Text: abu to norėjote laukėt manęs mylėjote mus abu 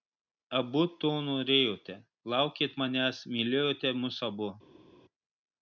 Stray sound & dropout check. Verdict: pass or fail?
pass